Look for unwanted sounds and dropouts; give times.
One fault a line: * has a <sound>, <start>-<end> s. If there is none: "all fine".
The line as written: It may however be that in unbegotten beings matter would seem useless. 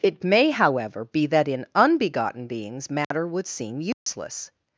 * has a dropout, 3.0-3.1 s
* has a dropout, 3.9-4.1 s